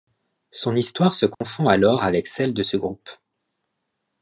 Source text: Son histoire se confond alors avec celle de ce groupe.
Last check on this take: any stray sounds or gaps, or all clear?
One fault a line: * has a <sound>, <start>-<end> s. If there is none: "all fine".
* has a dropout, 1.3-1.4 s